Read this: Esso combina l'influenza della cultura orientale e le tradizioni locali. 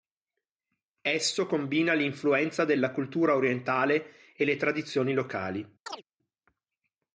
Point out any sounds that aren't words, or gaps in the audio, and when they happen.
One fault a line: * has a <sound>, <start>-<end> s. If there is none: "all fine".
* has a chirp, 5.9-6.0 s